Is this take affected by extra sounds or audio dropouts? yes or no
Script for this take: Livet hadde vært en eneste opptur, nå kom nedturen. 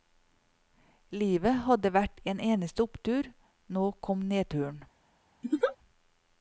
yes